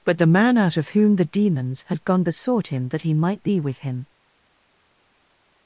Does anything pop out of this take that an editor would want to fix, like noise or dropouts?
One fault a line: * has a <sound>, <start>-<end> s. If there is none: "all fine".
all fine